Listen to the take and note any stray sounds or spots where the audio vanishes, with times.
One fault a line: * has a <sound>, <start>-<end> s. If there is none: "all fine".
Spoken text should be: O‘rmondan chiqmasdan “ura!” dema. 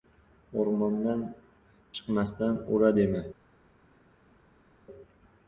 all fine